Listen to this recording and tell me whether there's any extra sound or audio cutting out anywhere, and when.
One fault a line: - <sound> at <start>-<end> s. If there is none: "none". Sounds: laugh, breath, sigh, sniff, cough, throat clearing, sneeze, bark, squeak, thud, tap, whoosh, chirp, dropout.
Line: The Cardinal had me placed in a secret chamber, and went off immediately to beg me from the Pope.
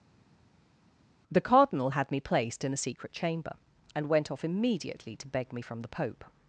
none